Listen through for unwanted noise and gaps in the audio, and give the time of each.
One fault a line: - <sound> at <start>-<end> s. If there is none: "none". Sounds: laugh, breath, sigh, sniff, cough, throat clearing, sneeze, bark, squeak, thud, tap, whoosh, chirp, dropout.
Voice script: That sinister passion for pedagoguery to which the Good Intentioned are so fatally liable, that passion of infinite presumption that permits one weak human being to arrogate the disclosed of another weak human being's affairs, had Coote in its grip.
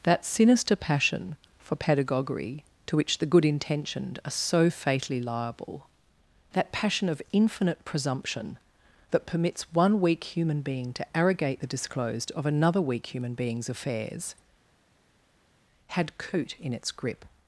none